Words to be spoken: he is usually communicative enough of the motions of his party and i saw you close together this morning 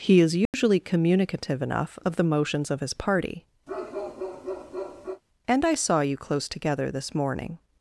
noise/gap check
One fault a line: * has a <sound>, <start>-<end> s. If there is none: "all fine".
* has a dropout, 0.5-0.5 s
* has a bark, 3.7-5.2 s